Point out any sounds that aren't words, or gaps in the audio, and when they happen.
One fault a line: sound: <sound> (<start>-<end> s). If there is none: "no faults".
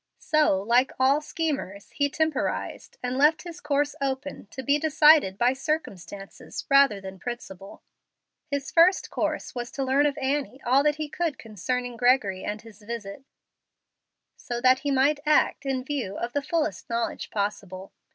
no faults